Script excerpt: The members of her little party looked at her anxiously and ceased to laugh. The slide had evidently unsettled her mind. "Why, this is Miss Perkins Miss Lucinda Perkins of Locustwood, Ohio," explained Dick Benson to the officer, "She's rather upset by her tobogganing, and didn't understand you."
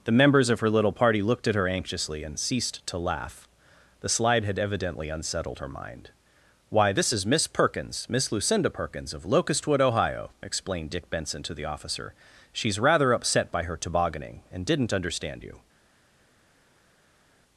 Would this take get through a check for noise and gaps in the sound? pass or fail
pass